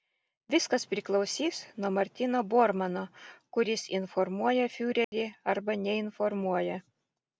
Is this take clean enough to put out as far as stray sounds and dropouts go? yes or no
no